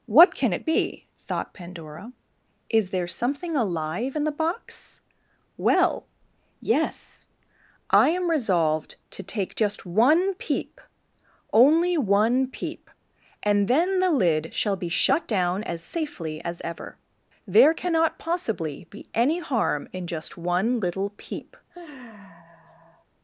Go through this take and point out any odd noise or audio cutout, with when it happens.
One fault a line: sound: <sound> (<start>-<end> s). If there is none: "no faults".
sound: sigh (21.7-23.1 s)